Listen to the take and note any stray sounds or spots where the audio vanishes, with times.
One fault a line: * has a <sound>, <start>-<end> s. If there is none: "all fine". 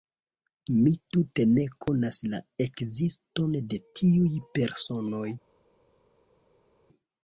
all fine